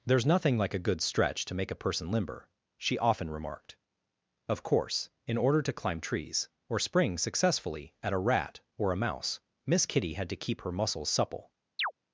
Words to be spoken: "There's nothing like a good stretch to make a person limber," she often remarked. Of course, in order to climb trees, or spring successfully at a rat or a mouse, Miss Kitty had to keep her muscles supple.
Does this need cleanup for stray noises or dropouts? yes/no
yes